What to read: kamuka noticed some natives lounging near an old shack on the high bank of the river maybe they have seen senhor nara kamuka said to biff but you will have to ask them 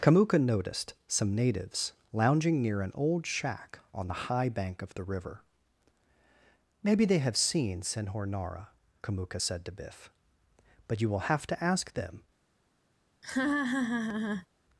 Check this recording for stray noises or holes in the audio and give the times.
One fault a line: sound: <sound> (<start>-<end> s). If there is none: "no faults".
sound: laugh (13.2-14.5 s)